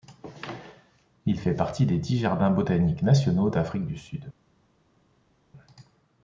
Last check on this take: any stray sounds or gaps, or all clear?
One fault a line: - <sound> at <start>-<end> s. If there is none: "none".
none